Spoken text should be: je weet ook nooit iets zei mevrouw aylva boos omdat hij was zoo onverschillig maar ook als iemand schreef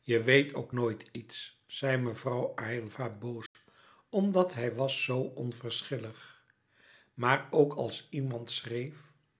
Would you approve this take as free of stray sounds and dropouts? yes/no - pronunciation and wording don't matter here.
no